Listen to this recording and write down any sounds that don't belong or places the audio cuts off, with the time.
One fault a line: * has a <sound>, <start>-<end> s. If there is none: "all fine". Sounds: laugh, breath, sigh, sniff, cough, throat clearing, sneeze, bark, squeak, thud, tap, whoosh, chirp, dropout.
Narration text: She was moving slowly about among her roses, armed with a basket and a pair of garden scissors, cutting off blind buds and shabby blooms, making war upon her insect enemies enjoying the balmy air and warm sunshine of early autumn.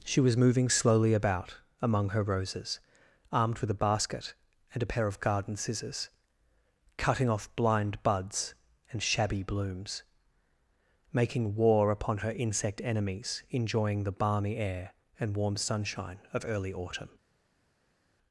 all fine